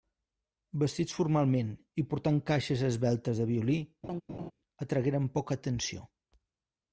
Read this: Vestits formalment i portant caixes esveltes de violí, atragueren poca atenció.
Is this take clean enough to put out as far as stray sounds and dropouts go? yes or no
no